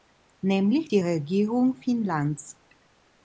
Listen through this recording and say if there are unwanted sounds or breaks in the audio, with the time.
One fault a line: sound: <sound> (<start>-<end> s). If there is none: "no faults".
no faults